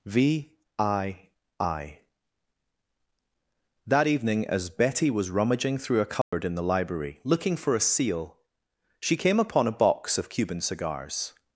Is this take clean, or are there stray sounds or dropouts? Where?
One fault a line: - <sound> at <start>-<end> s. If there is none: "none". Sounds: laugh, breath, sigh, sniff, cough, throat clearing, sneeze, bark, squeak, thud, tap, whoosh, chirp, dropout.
- dropout at 6.2-6.3 s